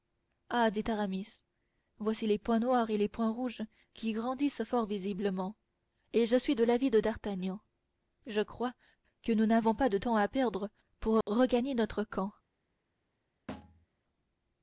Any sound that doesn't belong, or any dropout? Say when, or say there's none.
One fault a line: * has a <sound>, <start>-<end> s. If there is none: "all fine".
* has a dropout, 11.2-11.3 s
* has a thud, 13.5-13.9 s